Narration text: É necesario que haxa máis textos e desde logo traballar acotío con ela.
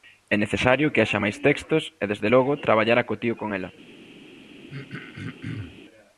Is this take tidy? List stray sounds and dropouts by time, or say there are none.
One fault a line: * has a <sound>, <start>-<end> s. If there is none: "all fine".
* has a throat clearing, 4.7-5.8 s